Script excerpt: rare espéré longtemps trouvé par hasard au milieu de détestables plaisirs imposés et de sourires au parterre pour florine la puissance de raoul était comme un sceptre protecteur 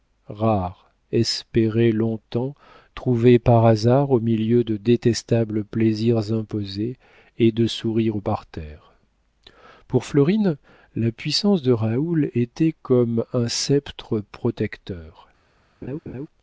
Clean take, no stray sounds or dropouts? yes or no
no